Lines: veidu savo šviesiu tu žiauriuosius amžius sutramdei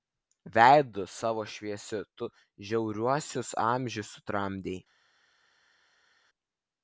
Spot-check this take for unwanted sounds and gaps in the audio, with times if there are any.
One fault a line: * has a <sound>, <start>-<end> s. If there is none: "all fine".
all fine